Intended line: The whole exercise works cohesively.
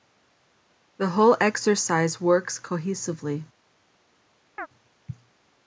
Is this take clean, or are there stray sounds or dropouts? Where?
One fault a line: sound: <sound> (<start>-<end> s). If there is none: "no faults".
sound: chirp (4.6-4.7 s)